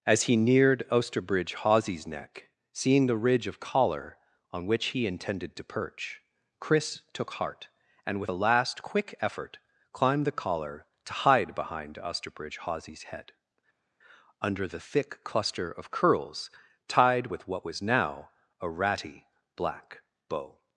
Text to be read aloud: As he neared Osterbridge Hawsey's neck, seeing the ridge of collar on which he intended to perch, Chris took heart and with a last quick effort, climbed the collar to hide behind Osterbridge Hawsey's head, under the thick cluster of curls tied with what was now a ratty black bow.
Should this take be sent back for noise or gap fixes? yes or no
no